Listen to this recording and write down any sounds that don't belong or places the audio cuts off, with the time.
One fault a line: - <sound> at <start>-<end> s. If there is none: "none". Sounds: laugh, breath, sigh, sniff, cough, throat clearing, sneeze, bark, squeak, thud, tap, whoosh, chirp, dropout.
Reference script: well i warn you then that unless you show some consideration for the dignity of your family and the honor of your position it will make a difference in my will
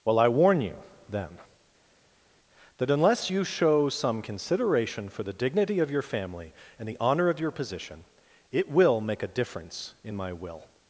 none